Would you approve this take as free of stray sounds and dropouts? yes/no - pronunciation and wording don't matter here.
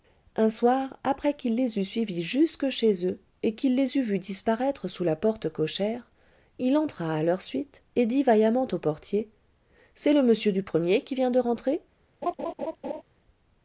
no